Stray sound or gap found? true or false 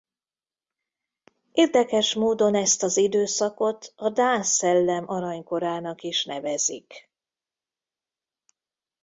false